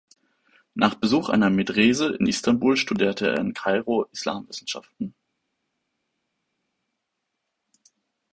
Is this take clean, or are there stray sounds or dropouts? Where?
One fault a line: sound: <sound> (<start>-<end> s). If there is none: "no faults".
no faults